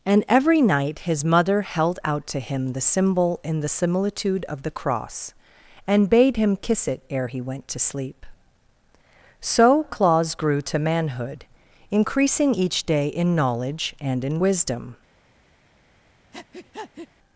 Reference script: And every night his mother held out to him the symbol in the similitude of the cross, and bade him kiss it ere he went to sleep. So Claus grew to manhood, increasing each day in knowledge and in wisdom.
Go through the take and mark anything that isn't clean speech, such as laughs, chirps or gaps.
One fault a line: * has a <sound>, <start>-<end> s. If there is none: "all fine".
* has a breath, 16.3-17.1 s